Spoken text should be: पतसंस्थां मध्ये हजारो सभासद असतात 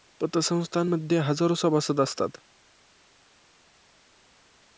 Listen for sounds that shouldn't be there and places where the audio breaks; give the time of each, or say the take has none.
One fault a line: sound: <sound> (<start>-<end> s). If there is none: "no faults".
no faults